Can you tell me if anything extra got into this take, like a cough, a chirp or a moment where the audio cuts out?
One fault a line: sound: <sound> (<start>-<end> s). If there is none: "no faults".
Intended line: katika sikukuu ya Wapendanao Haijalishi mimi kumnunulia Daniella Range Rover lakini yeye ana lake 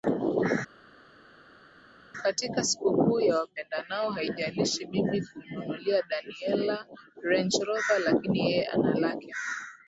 no faults